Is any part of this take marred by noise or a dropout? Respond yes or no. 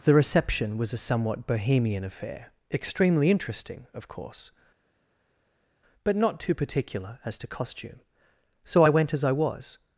no